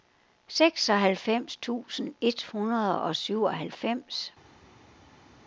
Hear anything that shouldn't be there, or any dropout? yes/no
no